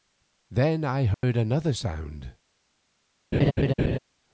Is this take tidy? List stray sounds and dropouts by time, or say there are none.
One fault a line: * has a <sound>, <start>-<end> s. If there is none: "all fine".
* has a dropout, 1.1-1.2 s
* has a laugh, 3.3-4.0 s